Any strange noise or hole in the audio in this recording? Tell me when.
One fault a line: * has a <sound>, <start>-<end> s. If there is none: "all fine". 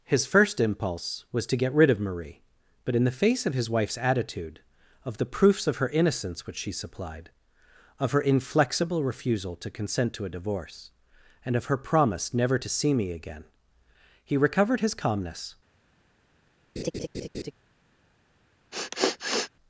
* has a laugh, 16.8-17.5 s
* has a sniff, 18.7-19.5 s